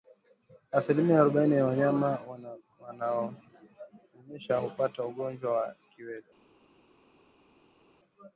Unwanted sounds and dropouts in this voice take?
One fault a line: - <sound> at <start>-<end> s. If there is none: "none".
none